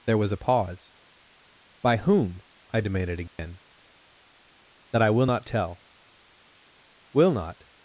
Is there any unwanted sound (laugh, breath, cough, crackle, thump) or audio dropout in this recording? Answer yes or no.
yes